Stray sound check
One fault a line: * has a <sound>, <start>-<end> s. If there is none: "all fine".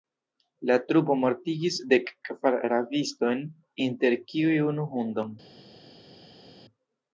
all fine